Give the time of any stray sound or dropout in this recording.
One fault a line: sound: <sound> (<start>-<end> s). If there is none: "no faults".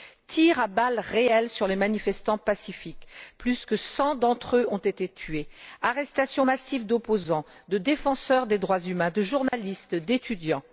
sound: dropout (9.5-9.5 s)